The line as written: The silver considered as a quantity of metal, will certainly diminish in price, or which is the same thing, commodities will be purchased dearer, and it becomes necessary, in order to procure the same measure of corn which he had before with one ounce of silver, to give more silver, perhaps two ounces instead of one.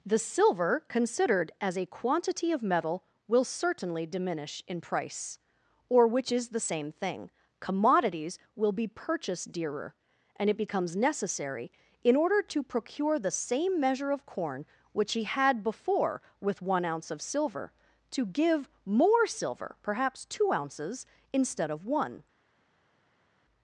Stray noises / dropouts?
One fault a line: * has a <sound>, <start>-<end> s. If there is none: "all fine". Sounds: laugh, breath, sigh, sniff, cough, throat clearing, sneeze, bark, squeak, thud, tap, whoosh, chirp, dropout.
all fine